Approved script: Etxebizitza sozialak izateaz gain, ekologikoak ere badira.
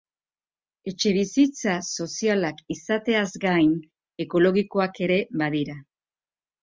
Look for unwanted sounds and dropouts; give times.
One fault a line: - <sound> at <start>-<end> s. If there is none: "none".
none